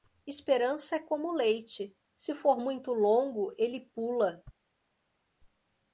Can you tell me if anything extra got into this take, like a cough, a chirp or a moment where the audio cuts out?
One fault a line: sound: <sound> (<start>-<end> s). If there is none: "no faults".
no faults